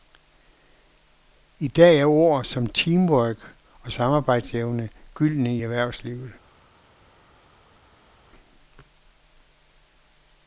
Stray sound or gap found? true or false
false